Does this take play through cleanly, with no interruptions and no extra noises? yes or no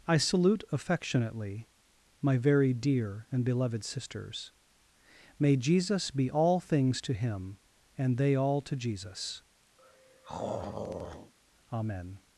no